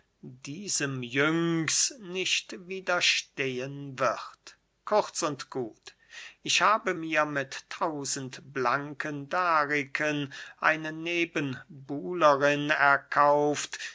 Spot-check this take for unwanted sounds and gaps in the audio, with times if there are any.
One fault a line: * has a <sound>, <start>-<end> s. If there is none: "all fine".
all fine